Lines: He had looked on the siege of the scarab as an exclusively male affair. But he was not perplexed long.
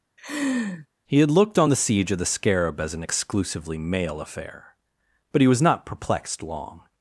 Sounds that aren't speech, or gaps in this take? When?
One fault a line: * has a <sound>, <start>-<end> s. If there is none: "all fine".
* has a laugh, 0.2-0.9 s